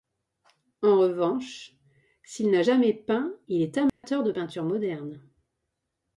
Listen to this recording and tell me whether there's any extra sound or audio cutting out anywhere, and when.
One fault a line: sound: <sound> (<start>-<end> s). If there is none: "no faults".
sound: dropout (3.9-4.0 s)